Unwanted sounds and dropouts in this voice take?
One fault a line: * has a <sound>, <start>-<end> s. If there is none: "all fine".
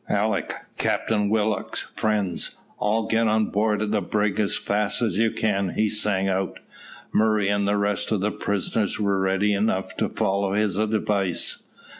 all fine